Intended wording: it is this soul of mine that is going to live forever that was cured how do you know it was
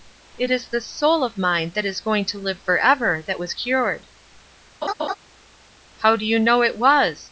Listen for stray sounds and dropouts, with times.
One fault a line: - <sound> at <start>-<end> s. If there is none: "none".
- laugh at 4.8-5.1 s